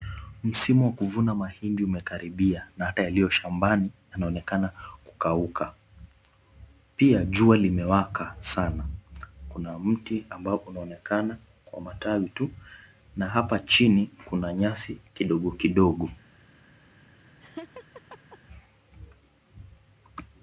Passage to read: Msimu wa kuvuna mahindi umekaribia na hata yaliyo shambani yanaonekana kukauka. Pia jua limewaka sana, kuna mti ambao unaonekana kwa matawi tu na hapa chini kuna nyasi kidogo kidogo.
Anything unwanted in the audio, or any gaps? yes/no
yes